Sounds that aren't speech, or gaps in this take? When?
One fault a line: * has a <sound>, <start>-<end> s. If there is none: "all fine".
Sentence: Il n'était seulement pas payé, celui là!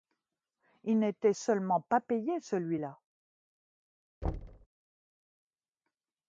* has a thud, 4.2-4.7 s